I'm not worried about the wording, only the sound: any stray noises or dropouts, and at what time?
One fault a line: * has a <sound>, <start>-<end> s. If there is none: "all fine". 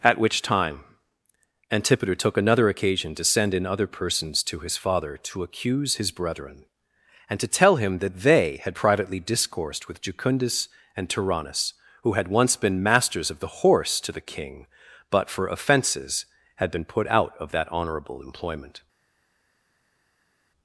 all fine